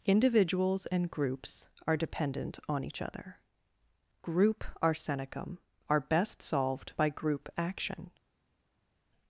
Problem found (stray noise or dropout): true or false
false